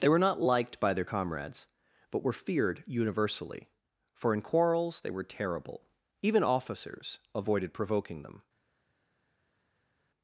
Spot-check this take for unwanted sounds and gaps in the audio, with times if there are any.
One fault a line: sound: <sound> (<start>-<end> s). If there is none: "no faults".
no faults